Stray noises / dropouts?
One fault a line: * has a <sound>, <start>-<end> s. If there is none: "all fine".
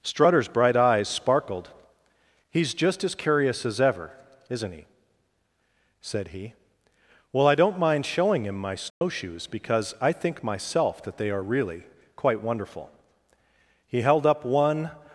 * has a dropout, 8.9-9.0 s